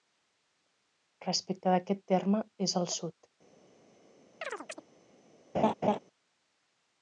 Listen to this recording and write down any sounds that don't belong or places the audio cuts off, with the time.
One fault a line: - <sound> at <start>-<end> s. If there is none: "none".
- chirp at 4.4-4.8 s
- laugh at 5.5-6.0 s